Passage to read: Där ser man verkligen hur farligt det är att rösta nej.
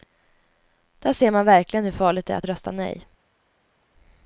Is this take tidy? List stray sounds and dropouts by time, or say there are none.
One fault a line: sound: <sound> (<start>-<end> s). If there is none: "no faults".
no faults